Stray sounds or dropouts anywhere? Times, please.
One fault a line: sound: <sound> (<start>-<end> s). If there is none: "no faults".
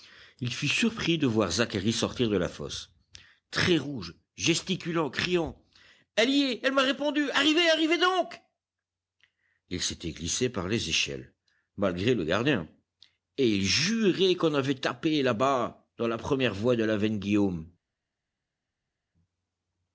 no faults